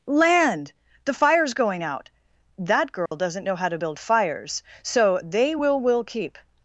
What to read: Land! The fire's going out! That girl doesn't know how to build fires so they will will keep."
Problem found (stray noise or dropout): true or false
true